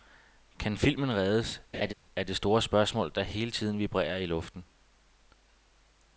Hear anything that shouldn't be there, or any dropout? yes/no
yes